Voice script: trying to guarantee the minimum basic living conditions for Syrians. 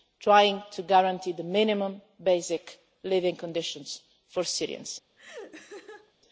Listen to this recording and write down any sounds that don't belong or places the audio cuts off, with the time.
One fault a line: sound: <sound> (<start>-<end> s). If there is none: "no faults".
sound: laugh (5.2-6.1 s)